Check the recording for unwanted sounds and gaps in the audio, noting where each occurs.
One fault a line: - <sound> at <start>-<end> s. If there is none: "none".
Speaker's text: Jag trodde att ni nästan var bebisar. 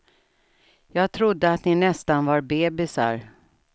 none